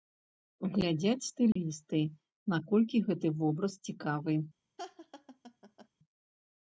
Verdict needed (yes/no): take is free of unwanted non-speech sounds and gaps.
no